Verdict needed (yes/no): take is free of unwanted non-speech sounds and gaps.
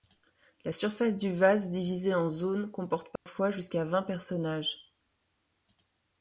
no